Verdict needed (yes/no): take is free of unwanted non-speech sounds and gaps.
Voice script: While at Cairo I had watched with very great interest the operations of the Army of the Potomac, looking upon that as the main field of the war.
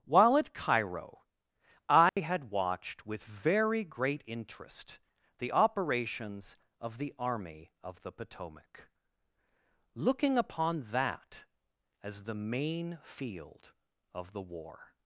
no